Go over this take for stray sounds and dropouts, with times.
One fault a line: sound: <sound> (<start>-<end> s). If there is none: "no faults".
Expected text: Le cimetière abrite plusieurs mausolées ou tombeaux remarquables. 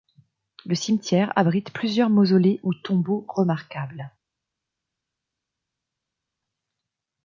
no faults